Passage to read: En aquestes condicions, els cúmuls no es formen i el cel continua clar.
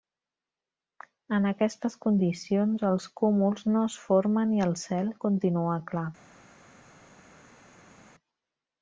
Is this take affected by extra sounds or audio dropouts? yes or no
no